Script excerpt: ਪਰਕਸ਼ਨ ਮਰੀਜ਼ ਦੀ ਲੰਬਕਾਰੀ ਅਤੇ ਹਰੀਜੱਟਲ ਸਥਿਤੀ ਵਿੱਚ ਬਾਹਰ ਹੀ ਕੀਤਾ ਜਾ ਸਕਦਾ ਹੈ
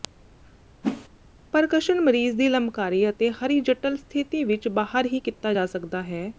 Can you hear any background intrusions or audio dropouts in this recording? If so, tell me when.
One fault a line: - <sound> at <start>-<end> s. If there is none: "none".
- whoosh at 0.8-1.1 s